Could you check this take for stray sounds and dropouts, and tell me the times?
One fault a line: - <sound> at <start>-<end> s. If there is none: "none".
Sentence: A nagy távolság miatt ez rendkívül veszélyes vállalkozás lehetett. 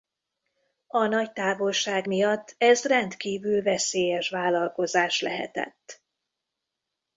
none